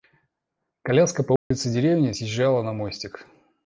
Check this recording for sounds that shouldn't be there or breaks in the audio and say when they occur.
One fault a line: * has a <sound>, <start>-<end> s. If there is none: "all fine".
* has a dropout, 1.4-1.5 s